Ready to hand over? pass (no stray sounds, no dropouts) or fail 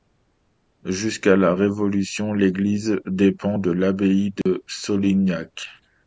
fail